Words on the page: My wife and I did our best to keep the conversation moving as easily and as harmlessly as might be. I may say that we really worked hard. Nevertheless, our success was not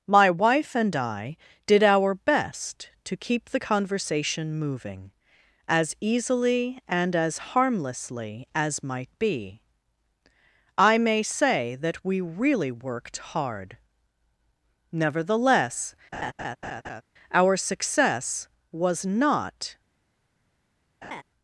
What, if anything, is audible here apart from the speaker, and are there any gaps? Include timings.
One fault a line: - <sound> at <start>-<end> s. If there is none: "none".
- laugh at 16.1-17.0 s
- laugh at 21.0-21.2 s